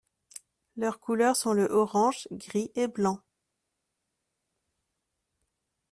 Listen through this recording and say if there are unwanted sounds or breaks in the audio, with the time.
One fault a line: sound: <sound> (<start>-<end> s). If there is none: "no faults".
no faults